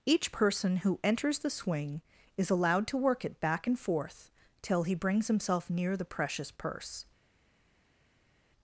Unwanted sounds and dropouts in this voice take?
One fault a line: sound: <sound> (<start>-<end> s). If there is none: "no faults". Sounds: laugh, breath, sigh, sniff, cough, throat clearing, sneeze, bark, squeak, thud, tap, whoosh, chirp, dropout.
no faults